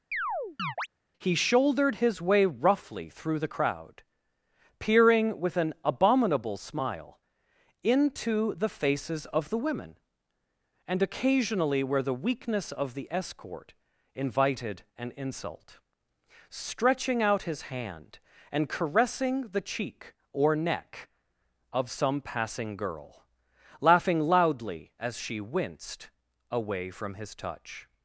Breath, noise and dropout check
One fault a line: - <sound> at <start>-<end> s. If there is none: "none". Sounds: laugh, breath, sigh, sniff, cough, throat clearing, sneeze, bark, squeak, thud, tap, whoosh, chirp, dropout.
- chirp at 0.1-0.9 s